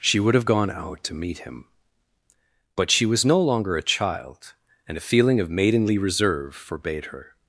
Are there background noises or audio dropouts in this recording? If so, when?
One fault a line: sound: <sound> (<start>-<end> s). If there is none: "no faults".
no faults